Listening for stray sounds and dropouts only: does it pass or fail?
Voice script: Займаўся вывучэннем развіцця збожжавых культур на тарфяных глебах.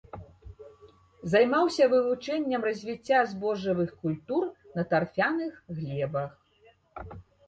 pass